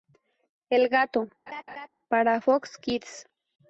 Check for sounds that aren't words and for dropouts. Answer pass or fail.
fail